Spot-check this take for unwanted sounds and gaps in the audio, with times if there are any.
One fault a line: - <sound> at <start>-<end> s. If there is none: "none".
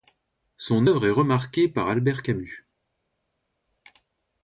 none